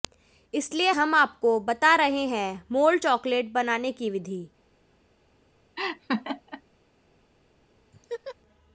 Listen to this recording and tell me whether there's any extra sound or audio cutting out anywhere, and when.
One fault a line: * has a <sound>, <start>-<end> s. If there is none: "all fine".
* has a laugh, 5.8-6.6 s
* has a laugh, 7.9-8.4 s